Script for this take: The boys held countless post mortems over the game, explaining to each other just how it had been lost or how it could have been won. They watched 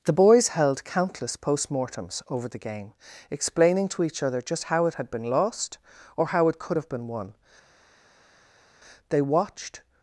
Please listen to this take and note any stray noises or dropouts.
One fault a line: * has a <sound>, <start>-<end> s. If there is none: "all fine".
all fine